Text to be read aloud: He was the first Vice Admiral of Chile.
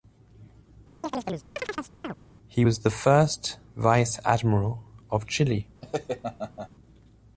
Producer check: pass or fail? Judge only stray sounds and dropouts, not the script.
fail